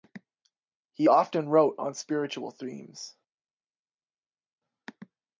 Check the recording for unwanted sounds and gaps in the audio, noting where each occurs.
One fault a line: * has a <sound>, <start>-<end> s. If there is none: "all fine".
all fine